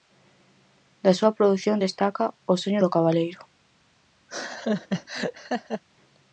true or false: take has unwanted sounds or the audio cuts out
true